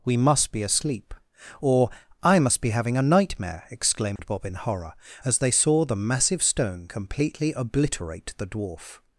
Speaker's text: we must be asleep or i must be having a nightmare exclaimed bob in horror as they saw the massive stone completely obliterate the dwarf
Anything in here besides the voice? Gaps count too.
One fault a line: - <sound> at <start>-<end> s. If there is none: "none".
- dropout at 4.2-4.2 s